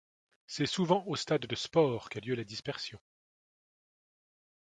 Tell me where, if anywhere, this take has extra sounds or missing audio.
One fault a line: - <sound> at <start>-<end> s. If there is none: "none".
none